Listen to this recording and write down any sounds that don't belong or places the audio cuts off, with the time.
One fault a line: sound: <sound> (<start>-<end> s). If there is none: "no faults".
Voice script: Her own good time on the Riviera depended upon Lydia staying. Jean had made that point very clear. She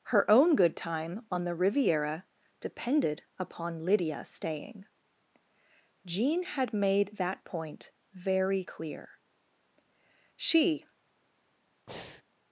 sound: breath (11.9-12.2 s)